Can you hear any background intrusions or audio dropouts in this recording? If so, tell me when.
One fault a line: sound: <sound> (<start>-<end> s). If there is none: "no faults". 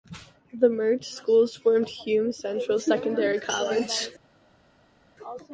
no faults